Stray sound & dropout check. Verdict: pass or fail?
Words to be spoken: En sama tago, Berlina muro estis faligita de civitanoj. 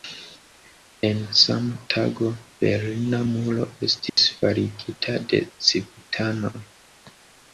fail